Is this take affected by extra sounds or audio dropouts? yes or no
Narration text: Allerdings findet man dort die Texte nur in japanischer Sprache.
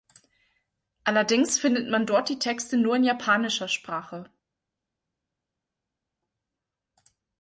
no